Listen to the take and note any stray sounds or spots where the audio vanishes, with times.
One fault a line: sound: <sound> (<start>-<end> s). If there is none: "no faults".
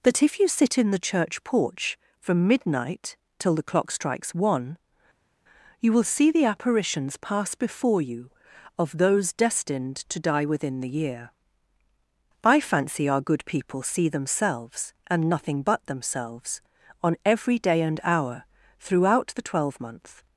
no faults